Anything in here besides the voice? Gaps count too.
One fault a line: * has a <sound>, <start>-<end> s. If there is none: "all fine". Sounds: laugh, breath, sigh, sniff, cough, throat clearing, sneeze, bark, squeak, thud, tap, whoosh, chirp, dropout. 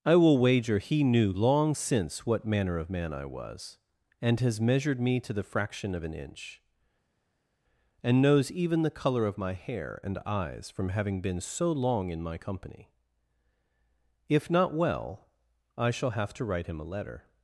all fine